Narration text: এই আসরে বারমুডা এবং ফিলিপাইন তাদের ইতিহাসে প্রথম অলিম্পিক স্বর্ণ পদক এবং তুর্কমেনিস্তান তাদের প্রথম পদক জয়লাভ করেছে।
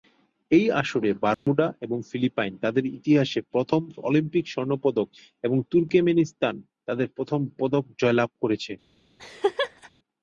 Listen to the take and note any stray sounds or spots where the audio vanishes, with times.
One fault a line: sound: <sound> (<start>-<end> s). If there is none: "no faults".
sound: dropout (1.3-1.5 s)
sound: laugh (9.2-9.9 s)